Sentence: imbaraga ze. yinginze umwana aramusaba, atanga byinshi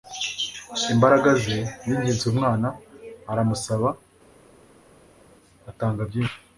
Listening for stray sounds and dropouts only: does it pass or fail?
pass